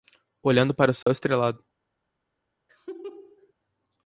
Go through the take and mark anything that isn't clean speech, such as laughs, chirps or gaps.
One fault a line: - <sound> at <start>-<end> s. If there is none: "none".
- dropout at 1.0-1.1 s
- laugh at 2.7-3.5 s